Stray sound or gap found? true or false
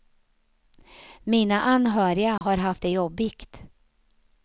true